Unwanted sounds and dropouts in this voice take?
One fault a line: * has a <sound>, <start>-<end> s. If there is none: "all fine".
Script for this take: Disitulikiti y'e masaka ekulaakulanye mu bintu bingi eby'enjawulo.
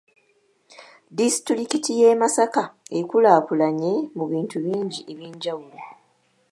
all fine